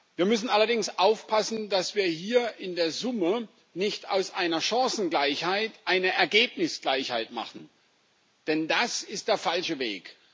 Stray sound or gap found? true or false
false